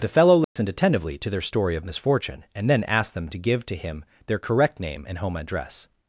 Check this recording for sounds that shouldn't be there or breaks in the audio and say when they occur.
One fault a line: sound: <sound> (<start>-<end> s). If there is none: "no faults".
sound: dropout (0.4-0.6 s)